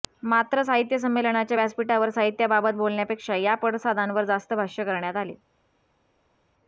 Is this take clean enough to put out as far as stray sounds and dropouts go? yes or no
yes